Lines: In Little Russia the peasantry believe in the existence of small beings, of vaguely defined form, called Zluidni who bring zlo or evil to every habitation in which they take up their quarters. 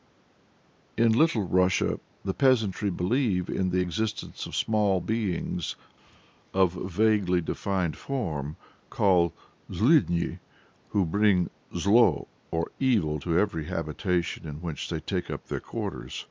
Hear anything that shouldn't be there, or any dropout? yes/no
no